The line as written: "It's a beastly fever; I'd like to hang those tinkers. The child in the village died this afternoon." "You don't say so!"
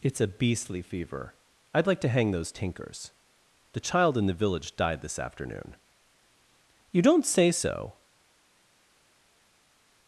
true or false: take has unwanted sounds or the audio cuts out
false